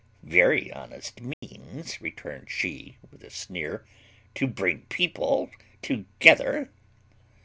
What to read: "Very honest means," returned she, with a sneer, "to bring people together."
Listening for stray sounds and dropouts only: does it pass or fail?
fail